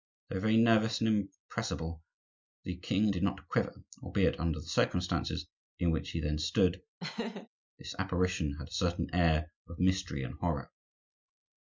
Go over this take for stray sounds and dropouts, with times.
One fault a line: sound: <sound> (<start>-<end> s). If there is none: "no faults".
sound: laugh (7.0-7.5 s)